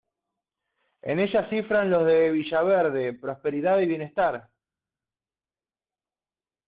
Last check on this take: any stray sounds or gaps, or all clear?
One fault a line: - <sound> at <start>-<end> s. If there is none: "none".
none